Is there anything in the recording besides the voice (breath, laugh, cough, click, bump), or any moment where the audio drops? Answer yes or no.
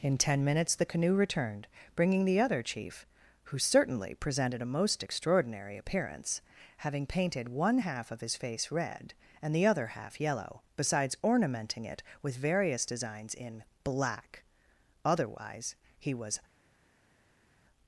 no